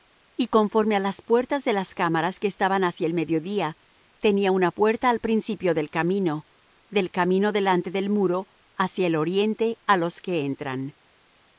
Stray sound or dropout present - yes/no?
no